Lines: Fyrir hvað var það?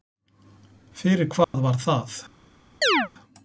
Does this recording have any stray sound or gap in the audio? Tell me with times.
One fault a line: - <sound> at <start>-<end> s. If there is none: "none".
- dropout at 1.4-1.5 s
- chirp at 2.8-3.1 s